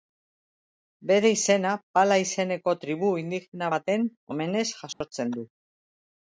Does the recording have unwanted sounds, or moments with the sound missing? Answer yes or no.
yes